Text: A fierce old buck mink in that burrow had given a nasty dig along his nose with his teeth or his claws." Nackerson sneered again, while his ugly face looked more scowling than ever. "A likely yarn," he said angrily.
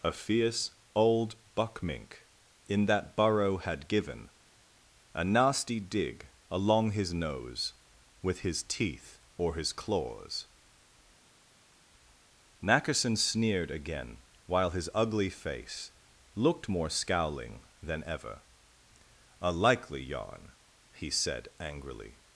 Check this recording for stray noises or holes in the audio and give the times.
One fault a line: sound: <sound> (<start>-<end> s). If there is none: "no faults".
no faults